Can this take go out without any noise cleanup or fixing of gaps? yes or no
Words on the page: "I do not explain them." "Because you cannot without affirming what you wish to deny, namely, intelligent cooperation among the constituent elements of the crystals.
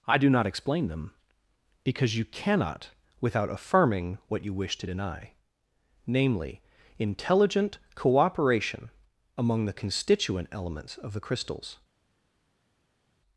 yes